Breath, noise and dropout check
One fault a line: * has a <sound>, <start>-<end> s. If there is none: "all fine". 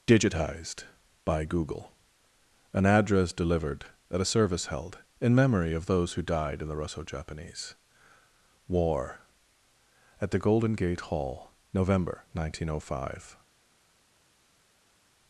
all fine